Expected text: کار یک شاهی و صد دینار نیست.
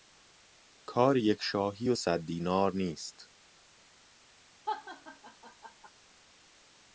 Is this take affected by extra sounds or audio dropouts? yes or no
yes